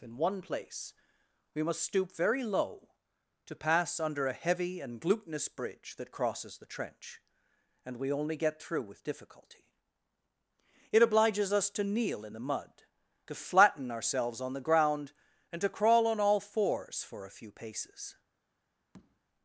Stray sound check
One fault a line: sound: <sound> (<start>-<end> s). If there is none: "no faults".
sound: tap (18.9-19.2 s)